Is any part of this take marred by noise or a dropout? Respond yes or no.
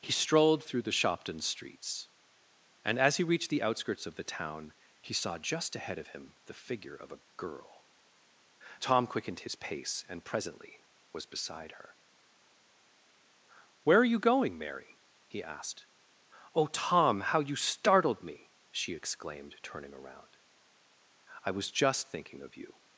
no